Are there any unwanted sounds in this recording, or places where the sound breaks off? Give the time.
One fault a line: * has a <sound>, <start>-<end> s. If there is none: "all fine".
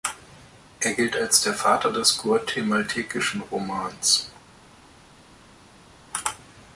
all fine